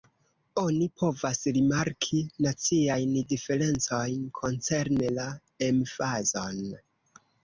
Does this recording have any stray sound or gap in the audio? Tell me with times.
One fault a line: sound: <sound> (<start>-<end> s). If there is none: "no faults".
no faults